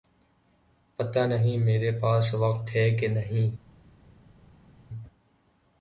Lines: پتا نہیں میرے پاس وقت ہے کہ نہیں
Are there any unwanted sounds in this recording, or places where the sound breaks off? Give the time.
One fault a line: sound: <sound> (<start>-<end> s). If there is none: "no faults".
no faults